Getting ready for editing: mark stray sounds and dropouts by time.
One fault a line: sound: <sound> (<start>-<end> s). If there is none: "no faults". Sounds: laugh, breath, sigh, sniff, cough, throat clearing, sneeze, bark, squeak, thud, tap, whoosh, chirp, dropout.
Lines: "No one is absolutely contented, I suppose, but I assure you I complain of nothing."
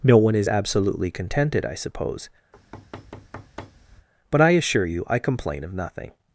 sound: thud (2.5-4.1 s)